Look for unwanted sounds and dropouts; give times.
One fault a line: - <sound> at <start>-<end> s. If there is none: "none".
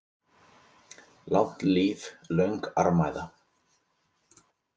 none